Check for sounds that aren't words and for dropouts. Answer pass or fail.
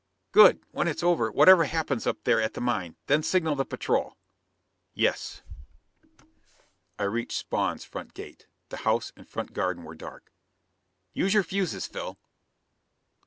pass